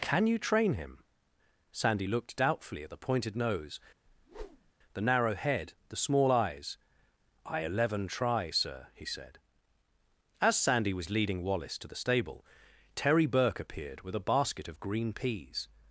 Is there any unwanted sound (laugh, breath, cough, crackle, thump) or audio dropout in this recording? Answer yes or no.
yes